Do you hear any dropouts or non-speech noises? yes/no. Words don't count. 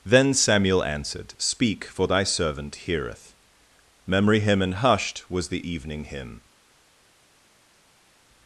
no